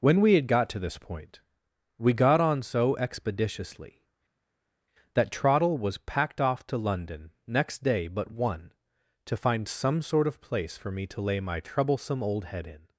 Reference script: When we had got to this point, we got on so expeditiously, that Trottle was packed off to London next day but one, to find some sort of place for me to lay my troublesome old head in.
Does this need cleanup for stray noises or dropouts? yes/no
no